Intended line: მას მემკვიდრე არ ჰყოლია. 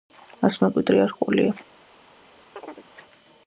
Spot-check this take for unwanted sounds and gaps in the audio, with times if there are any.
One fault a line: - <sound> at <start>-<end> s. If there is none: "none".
- chirp at 2.6-2.9 s